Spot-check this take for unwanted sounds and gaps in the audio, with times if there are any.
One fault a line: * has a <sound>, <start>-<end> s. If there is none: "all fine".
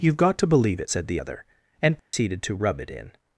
* has a dropout, 2.0-2.1 s